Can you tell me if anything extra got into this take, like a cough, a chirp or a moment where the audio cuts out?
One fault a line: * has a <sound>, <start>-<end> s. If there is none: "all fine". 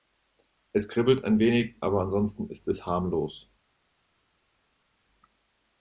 all fine